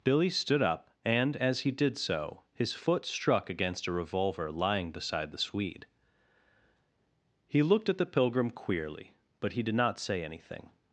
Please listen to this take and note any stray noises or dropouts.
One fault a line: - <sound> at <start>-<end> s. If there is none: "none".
none